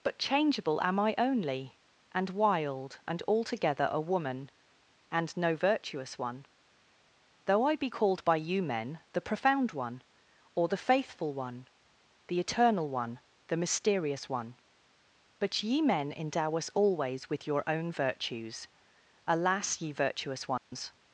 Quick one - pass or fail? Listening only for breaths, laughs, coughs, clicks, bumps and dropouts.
fail